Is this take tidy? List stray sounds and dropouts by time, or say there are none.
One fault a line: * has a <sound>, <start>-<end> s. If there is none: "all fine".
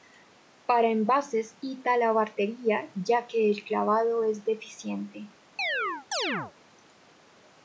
* has a chirp, 5.6-6.5 s